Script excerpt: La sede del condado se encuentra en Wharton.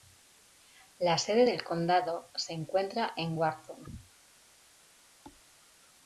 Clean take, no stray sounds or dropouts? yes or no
no